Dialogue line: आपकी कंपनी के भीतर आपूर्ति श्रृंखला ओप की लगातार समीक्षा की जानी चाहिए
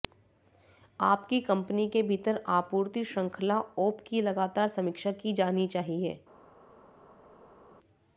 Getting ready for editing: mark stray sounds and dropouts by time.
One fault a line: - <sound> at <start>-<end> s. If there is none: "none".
none